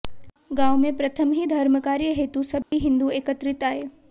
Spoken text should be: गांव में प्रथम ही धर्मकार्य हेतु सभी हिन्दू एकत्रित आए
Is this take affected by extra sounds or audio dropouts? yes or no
yes